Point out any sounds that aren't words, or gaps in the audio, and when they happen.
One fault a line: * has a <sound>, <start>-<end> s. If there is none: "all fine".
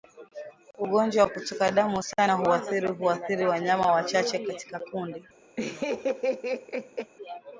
* has a laugh, 5.6-7.1 s